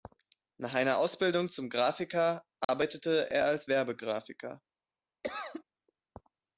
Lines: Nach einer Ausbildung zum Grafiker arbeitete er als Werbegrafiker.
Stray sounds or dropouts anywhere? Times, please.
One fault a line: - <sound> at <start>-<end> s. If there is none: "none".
- dropout at 2.6-2.7 s
- cough at 5.2-5.6 s